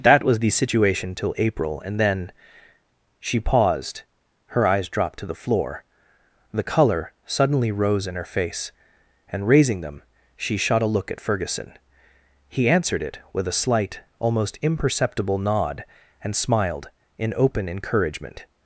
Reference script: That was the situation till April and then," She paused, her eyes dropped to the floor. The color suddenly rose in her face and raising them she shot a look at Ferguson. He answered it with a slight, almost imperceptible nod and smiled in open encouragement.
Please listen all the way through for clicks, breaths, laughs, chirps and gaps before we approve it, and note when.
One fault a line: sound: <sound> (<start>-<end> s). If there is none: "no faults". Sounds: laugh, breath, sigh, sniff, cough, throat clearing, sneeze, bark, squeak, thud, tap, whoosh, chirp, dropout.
no faults